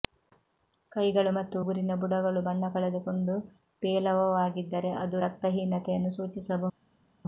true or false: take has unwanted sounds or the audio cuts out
false